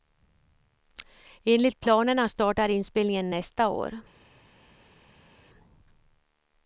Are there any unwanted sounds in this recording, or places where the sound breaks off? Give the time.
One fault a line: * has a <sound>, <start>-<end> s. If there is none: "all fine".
all fine